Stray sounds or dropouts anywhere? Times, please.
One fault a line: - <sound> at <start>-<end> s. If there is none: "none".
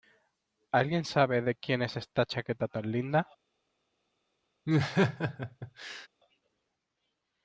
- laugh at 4.7-6.1 s